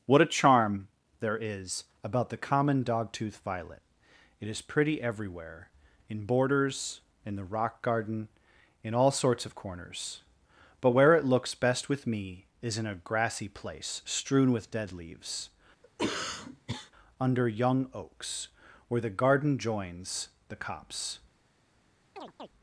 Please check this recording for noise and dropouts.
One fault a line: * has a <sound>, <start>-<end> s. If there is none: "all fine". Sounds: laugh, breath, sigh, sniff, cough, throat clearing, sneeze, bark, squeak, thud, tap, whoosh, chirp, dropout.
* has a cough, 15.8-16.9 s
* has a chirp, 22.2-22.5 s